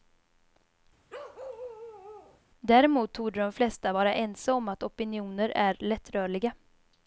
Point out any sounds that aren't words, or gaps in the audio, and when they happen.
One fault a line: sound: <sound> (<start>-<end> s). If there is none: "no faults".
sound: bark (1.1-2.4 s)